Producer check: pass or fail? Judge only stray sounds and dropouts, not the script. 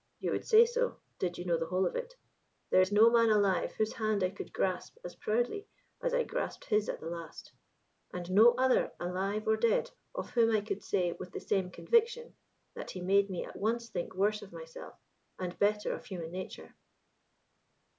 pass